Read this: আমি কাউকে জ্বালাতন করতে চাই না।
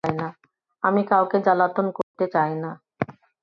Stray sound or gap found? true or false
true